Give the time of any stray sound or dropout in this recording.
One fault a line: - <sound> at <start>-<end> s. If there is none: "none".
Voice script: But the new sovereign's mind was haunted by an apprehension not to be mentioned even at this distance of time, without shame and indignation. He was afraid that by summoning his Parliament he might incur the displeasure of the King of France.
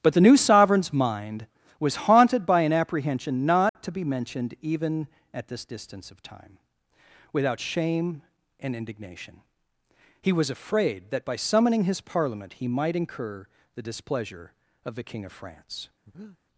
- dropout at 3.7-3.8 s
- breath at 16.1-16.4 s